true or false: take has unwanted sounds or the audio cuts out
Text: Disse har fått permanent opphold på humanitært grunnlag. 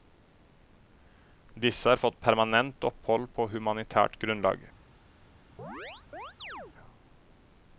true